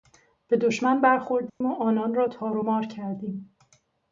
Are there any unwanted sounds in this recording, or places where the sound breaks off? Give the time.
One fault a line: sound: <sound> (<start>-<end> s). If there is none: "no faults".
sound: dropout (1.5-1.6 s)